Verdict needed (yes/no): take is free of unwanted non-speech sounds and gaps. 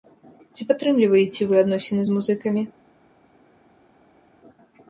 yes